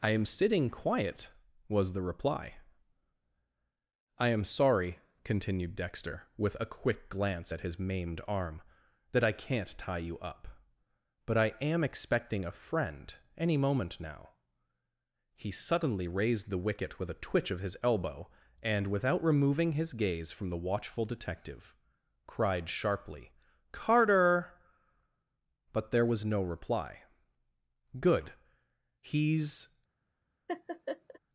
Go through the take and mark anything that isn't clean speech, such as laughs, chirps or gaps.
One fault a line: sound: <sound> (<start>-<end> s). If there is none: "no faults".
sound: laugh (30.5-31.2 s)